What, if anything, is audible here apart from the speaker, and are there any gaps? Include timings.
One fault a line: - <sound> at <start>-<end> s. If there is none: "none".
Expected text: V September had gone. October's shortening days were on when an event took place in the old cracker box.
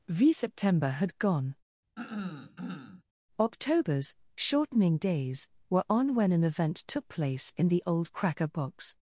- throat clearing at 2.0-3.0 s